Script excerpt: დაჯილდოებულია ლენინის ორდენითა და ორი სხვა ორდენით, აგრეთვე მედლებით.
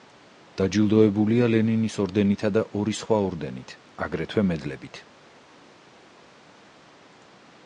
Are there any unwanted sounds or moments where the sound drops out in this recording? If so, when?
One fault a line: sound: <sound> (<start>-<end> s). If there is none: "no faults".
no faults